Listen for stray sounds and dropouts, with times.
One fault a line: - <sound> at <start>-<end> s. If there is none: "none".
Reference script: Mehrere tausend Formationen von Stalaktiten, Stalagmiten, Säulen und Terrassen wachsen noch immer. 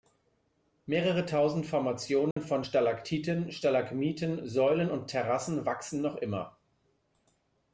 - dropout at 2.3-2.4 s